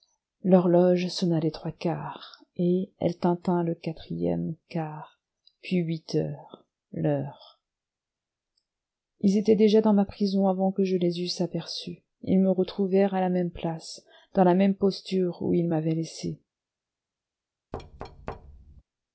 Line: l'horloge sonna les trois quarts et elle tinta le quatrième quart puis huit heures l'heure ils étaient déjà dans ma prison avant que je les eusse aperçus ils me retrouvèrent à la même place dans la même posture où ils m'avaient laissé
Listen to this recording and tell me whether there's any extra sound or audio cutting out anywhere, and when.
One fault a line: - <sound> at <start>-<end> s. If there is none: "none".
- thud at 17.7-18.8 s